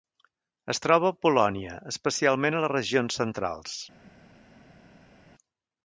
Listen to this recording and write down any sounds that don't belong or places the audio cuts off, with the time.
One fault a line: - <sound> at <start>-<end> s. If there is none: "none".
none